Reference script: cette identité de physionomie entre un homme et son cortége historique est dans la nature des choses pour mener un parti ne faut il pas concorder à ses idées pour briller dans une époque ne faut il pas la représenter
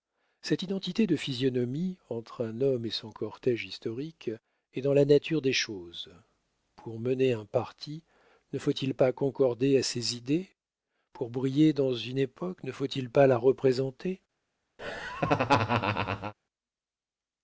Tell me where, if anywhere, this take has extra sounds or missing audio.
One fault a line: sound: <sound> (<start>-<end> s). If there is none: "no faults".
sound: laugh (14.8-16.3 s)